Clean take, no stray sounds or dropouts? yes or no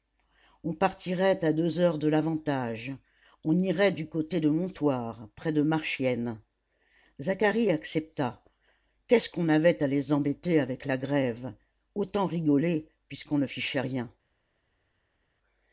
yes